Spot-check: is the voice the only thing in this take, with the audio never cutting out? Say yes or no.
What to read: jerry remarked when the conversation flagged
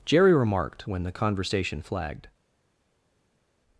yes